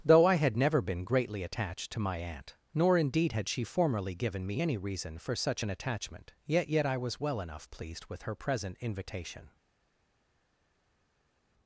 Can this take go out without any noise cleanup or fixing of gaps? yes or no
yes